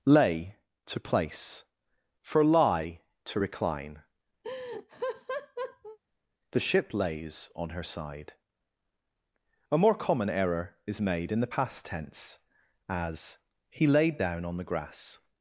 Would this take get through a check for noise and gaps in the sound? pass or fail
fail